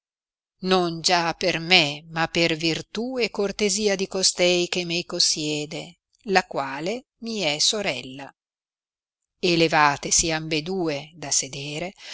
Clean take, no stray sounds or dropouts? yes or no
yes